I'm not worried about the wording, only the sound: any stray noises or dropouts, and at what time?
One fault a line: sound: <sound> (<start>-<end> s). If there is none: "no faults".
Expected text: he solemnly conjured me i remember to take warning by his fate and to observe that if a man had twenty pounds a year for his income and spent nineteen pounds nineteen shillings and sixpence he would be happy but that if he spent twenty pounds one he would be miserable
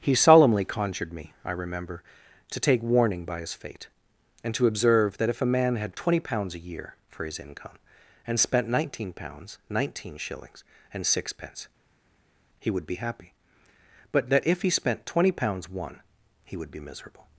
no faults